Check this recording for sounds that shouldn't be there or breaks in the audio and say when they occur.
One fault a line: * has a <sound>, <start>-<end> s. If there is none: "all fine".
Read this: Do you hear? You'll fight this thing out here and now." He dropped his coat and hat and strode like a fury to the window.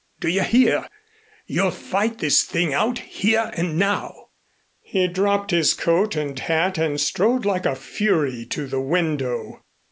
all fine